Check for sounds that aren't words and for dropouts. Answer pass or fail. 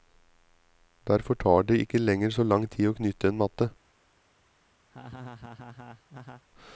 fail